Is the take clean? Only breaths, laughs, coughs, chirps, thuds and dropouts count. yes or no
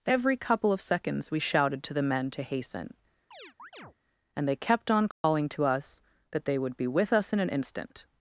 no